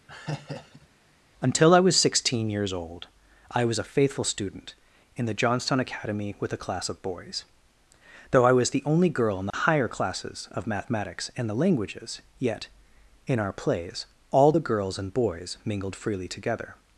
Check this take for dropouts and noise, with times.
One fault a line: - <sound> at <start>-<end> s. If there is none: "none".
- laugh at 0.1-0.9 s
- dropout at 9.5-9.5 s